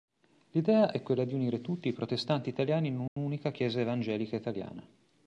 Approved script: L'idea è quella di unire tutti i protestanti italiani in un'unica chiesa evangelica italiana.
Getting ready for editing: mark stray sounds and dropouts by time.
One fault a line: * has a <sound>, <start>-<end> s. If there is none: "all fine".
* has a dropout, 3.1-3.2 s